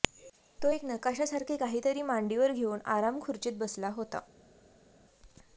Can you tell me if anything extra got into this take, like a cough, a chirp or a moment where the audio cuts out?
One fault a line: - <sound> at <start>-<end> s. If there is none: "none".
none